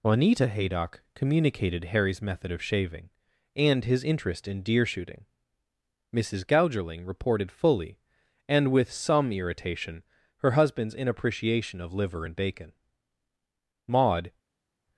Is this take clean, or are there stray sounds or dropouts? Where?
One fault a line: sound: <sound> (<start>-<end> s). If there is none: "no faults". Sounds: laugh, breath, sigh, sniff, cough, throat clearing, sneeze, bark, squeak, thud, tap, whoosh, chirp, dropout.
no faults